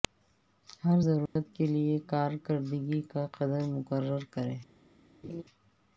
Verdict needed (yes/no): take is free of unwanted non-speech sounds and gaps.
no